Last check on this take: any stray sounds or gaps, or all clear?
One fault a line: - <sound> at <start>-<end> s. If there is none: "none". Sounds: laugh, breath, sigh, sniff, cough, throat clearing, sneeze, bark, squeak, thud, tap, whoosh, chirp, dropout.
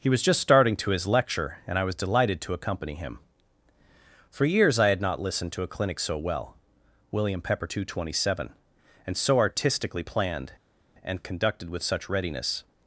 none